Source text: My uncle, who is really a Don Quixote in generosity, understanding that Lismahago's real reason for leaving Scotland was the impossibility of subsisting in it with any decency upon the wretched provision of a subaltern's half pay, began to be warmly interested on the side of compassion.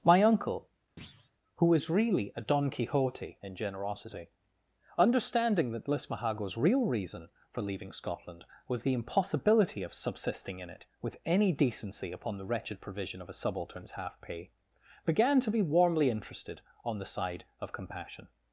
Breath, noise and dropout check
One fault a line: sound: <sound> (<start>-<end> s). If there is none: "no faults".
sound: thud (1.0-1.3 s)